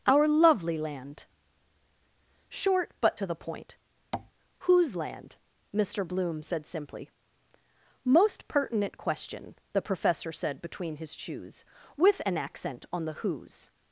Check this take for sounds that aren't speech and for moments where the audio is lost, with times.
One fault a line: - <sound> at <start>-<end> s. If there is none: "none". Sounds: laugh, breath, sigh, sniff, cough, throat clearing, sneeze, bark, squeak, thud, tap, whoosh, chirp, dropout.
- tap at 4.1-4.3 s